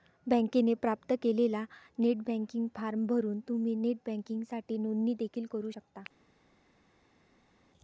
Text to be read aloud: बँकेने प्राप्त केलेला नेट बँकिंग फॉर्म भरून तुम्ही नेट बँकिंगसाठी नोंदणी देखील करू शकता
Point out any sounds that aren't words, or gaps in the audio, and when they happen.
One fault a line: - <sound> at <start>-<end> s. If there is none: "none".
none